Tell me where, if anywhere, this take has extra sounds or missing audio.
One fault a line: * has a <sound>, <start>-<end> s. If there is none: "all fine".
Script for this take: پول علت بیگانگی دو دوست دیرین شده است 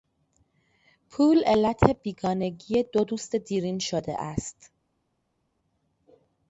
all fine